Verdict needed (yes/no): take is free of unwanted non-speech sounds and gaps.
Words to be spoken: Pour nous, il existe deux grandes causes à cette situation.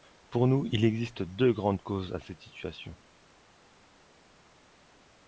yes